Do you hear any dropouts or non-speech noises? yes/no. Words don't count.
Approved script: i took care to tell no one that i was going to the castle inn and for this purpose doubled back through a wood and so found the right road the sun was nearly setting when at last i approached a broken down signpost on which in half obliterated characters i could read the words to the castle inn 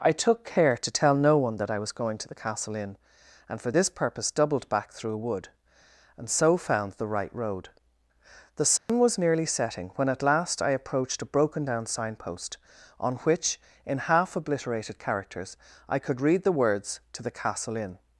yes